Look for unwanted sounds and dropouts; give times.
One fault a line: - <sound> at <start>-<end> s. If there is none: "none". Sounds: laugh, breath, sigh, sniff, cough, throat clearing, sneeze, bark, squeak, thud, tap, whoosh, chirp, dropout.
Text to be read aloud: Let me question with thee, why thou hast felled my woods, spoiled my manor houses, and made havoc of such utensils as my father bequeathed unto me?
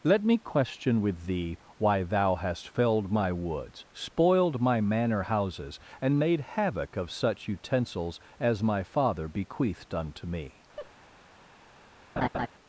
- laugh at 10.8-10.9 s
- laugh at 12.2-12.5 s